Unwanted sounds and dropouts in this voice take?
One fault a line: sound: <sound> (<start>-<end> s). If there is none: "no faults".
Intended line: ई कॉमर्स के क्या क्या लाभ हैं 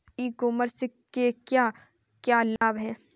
sound: dropout (2.6-2.6 s)